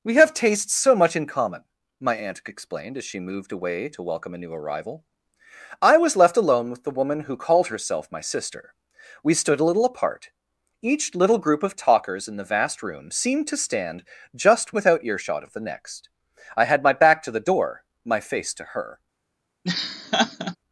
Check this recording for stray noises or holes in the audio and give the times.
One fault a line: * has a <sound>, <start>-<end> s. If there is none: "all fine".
* has a laugh, 19.6-20.6 s